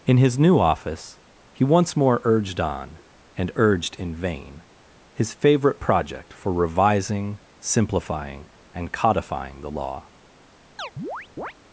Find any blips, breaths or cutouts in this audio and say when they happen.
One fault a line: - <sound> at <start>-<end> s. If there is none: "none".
- chirp at 10.8-11.5 s